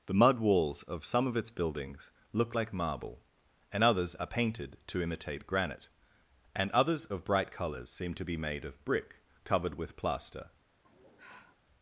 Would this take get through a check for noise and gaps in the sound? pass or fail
fail